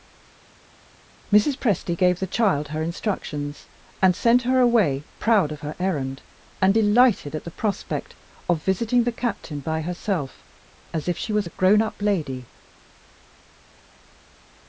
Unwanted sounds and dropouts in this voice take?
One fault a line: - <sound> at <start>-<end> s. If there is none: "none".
none